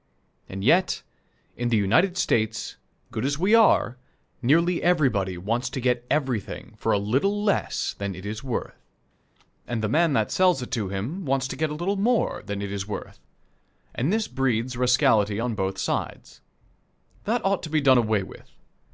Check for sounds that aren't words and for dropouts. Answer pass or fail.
pass